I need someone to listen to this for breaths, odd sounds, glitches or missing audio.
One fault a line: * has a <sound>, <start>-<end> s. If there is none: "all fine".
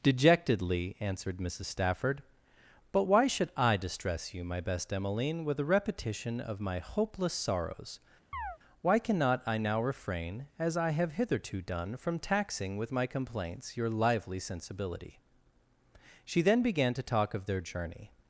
* has a chirp, 8.3-8.6 s